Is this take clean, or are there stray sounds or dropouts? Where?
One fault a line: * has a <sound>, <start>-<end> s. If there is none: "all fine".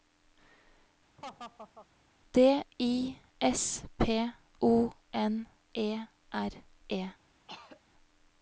* has a laugh, 1.2-1.9 s
* has a throat clearing, 7.5-7.8 s